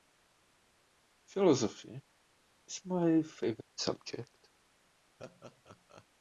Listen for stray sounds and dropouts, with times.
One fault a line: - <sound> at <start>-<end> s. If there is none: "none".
- laugh at 5.2-6.1 s